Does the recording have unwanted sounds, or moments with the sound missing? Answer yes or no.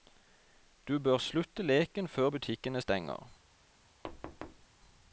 yes